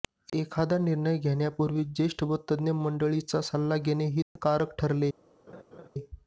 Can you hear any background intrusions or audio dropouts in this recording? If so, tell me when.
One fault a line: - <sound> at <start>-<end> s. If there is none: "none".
- dropout at 4.2-4.4 s
- laugh at 5.5-5.9 s